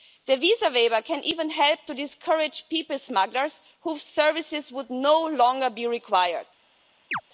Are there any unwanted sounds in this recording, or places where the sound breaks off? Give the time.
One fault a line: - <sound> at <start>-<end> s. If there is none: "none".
- chirp at 7.1-7.2 s